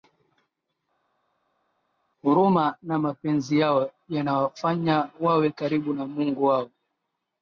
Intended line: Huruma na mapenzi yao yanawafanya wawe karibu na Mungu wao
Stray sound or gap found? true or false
false